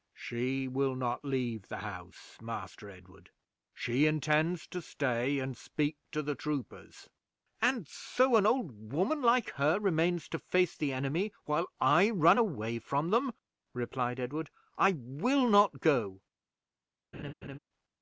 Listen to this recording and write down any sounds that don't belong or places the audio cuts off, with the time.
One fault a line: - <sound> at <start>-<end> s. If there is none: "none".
- laugh at 17.1-17.6 s